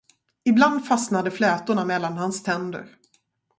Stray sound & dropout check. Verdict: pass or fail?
pass